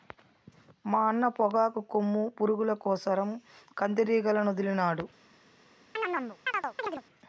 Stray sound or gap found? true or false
true